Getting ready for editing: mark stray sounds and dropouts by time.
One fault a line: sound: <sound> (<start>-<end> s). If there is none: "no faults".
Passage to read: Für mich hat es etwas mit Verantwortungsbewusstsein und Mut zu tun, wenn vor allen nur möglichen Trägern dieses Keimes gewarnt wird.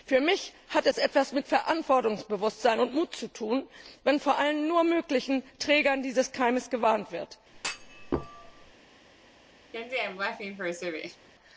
sound: thud (7.5-8.7 s)
sound: laugh (9.7-11.3 s)